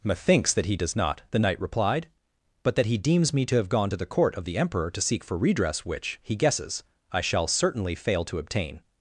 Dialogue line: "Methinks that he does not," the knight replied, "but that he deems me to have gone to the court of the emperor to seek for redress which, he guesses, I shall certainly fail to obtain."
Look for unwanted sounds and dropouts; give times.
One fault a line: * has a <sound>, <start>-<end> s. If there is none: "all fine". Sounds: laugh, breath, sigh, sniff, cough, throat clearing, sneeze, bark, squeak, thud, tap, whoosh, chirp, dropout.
all fine